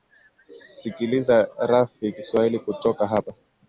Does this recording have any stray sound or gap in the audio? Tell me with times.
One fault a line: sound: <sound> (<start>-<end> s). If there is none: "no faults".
no faults